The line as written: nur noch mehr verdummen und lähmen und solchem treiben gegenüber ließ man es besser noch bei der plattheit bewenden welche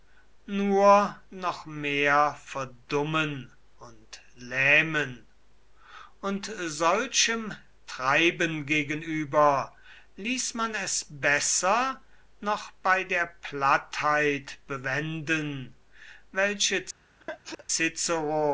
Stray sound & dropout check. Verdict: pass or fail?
fail